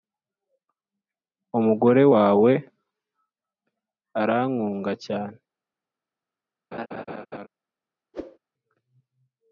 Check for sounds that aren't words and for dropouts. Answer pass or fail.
fail